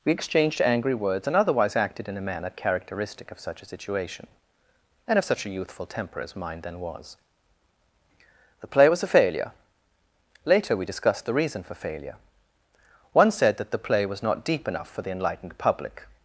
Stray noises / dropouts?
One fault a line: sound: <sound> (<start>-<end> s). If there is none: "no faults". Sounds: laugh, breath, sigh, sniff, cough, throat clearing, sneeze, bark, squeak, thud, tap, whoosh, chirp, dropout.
no faults